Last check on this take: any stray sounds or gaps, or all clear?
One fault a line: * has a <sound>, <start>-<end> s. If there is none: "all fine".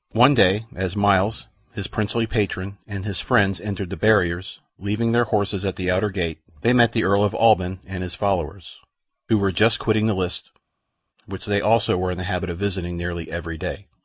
all fine